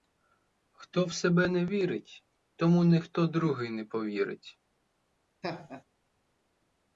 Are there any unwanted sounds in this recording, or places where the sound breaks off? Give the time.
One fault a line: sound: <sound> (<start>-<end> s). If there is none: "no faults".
sound: laugh (5.4-5.8 s)